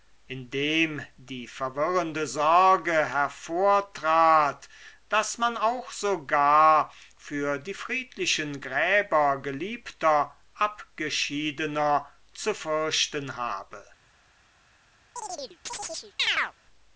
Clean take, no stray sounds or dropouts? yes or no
no